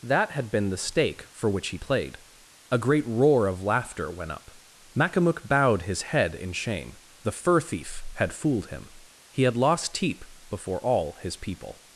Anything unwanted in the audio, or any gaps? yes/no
no